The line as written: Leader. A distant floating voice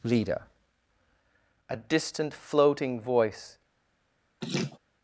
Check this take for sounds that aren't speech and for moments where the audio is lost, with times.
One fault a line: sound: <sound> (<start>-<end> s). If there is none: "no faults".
sound: laugh (4.4-4.8 s)